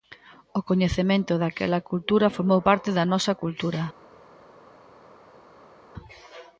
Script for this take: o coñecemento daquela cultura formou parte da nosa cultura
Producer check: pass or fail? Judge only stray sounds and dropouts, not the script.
pass